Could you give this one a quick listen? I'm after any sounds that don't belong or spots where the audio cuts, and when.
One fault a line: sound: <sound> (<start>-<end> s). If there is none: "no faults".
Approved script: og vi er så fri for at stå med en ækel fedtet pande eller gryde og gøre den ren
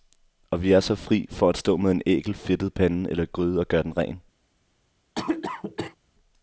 sound: cough (5.1-6.0 s)